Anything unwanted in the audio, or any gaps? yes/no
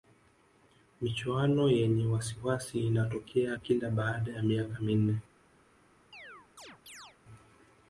yes